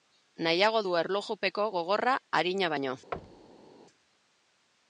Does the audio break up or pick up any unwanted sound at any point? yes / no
yes